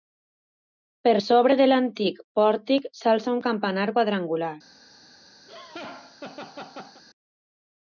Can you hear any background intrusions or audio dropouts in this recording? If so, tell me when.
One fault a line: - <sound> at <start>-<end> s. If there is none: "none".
- laugh at 5.5-7.0 s